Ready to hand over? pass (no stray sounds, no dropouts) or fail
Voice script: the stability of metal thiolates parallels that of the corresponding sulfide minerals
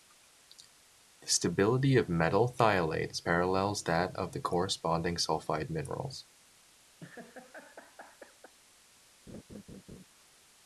fail